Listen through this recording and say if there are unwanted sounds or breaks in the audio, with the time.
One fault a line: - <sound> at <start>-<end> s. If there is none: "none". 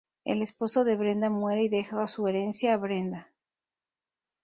none